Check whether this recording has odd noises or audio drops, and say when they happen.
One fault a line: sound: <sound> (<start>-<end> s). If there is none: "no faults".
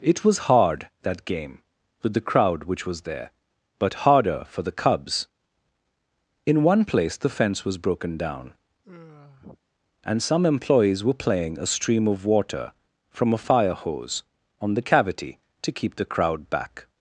sound: sigh (8.8-9.6 s)